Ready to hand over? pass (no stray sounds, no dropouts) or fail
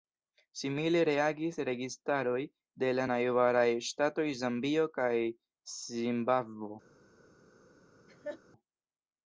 fail